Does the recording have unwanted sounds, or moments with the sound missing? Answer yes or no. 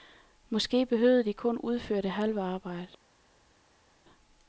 no